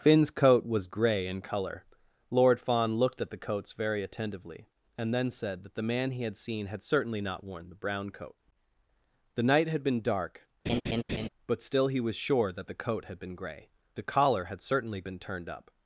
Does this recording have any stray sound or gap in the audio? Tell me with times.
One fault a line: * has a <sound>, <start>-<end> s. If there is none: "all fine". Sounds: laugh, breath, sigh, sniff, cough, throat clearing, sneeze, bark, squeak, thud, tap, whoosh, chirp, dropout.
* has a laugh, 10.7-11.3 s